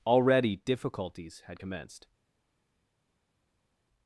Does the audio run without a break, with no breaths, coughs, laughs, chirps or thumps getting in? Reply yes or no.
yes